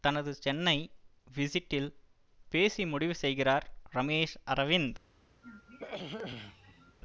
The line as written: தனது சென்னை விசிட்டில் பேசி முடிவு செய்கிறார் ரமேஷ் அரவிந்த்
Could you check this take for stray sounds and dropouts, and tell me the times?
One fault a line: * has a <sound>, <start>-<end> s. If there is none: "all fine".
* has a throat clearing, 5.4-7.0 s